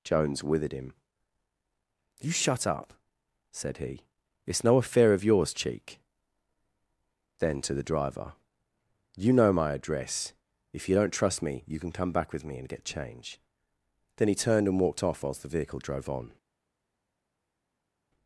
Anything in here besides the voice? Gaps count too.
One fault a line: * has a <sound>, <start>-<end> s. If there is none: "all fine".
all fine